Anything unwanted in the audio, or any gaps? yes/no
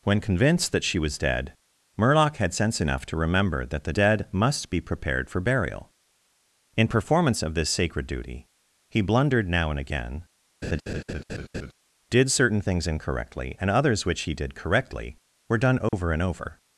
yes